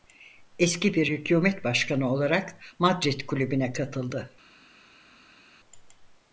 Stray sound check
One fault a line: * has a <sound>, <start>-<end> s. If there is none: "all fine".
all fine